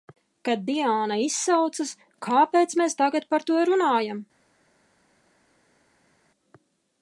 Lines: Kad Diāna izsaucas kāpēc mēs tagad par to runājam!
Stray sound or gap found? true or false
false